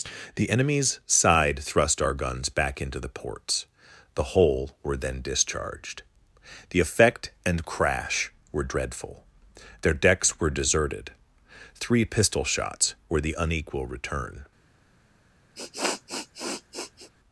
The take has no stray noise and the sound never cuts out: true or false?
false